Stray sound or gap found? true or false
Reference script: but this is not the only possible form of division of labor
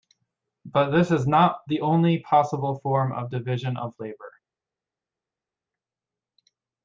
false